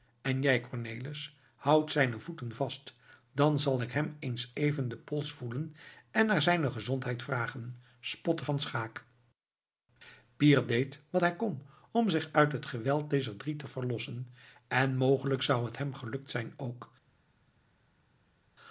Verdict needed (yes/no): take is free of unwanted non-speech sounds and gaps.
yes